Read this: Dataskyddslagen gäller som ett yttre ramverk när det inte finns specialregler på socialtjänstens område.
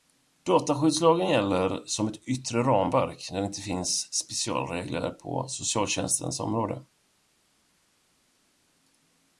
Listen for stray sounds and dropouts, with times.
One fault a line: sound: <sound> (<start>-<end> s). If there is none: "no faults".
no faults